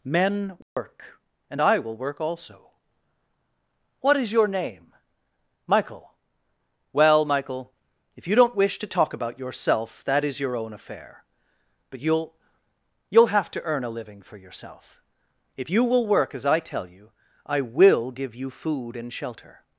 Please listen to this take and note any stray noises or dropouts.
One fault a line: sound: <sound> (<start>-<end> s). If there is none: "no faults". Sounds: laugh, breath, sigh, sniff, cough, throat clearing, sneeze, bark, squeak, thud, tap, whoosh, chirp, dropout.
sound: dropout (0.6-0.8 s)